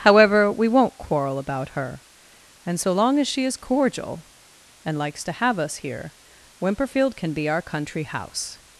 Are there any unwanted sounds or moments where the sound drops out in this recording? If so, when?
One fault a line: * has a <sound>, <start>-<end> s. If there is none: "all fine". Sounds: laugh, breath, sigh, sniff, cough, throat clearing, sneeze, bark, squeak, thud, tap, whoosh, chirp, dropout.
all fine